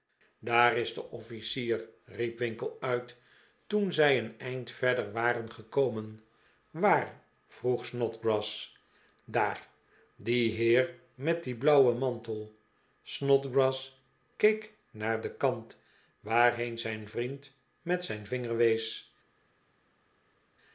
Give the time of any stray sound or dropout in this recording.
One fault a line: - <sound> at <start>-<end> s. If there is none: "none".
none